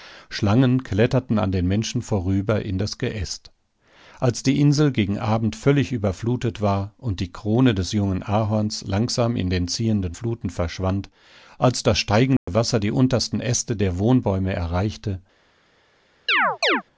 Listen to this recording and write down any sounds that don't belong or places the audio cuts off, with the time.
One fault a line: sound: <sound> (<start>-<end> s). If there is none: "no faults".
sound: dropout (12.4-12.5 s)
sound: chirp (16.3-16.8 s)